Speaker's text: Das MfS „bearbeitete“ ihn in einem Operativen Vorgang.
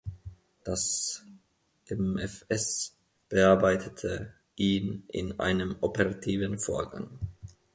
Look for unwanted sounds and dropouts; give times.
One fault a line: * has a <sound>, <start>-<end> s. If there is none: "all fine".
all fine